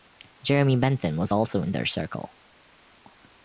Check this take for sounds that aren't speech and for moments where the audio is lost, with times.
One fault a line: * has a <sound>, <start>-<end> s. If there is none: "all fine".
all fine